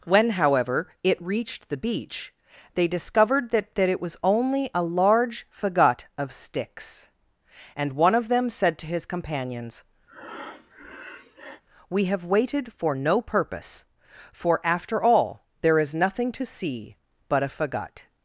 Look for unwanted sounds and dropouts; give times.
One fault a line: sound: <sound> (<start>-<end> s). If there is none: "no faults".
sound: breath (10.1-11.6 s)